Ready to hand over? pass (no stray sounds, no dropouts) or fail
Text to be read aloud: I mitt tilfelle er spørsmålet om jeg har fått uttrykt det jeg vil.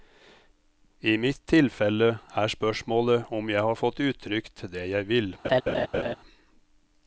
fail